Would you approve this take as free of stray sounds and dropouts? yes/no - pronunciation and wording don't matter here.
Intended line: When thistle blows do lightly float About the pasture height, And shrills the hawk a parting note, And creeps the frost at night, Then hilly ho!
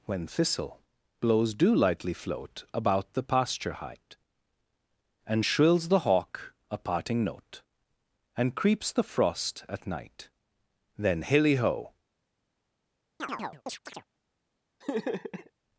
no